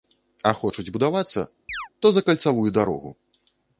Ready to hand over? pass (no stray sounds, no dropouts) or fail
fail